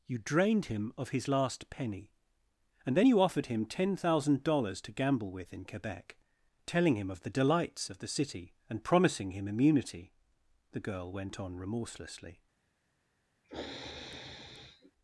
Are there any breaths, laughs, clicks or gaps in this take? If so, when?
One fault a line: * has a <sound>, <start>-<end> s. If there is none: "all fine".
* has a sniff, 13.4-14.9 s